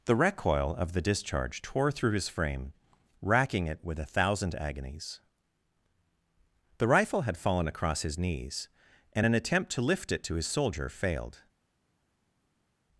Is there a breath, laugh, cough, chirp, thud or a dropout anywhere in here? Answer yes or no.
no